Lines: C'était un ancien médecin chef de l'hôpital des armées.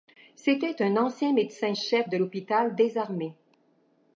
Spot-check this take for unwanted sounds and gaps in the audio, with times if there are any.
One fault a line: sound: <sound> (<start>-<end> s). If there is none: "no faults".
no faults